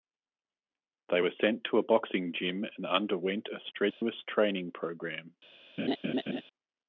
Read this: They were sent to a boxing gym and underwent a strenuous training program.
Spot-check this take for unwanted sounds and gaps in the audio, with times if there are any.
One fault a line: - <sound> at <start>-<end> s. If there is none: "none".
- dropout at 3.9-4.0 s
- laugh at 5.8-6.4 s